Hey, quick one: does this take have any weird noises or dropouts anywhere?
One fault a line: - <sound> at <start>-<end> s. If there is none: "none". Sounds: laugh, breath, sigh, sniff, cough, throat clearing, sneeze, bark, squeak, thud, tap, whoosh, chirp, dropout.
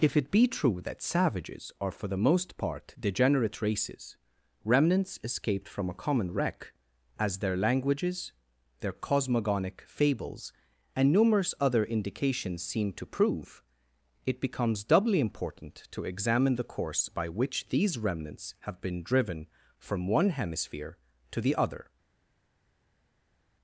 none